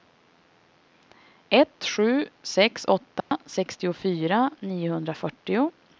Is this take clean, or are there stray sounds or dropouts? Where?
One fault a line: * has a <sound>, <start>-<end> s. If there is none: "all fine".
* has a dropout, 3.2-3.3 s